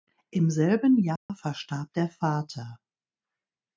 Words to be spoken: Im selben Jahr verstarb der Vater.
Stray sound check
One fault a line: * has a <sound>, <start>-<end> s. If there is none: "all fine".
* has a dropout, 1.2-1.3 s